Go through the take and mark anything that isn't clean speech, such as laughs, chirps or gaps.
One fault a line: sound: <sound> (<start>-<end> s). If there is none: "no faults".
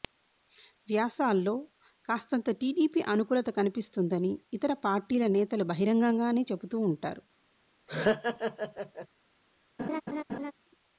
sound: laugh (7.9-9.1 s)
sound: laugh (9.8-10.5 s)